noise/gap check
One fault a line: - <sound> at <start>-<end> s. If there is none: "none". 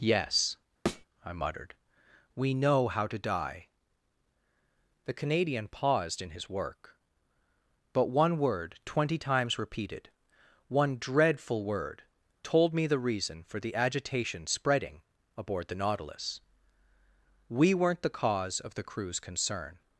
- thud at 0.9-1.1 s